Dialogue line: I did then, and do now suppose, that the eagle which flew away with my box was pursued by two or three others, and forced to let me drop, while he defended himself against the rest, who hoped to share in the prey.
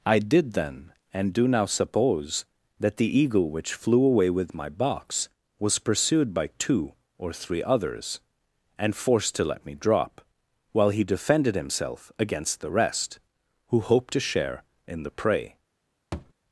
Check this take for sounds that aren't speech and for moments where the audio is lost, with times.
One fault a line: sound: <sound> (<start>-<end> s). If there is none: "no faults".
sound: thud (16.1-16.3 s)